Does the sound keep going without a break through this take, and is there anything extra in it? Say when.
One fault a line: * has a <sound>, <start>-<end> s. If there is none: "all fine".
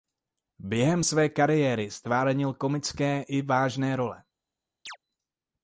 * has a chirp, 4.9-5.0 s